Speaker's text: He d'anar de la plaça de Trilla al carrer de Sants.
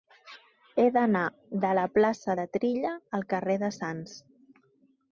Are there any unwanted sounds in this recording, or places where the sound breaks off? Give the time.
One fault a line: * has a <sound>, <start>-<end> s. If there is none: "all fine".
all fine